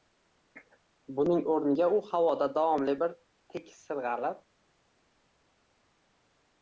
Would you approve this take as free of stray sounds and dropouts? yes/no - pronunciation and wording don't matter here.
yes